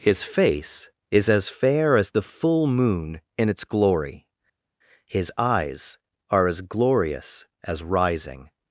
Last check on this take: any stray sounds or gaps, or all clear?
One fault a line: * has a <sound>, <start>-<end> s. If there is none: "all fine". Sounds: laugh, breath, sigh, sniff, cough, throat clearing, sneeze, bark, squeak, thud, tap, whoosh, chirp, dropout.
all fine